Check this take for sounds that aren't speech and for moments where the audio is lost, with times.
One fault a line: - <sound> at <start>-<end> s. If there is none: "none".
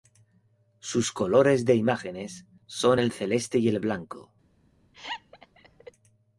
- laugh at 4.9-5.9 s